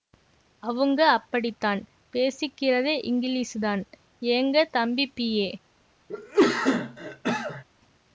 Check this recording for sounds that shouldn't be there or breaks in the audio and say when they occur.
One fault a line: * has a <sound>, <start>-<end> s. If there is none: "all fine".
* has a cough, 6.1-7.6 s